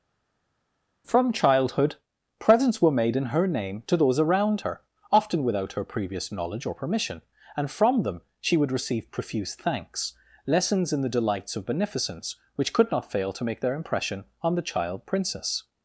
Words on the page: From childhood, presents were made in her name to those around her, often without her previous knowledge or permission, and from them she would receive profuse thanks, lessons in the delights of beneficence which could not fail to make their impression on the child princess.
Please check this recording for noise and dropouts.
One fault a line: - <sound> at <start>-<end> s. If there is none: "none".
none